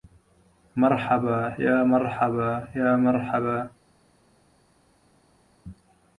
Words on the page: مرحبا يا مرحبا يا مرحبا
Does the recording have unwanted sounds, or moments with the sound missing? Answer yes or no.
no